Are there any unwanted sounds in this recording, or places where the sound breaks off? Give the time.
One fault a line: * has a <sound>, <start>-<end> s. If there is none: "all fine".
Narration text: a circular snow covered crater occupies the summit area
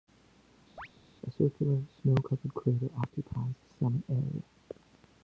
* has a chirp, 0.8-0.9 s